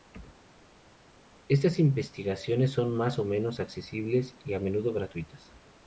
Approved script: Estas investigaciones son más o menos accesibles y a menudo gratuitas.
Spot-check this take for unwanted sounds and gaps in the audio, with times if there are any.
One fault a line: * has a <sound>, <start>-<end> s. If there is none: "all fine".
all fine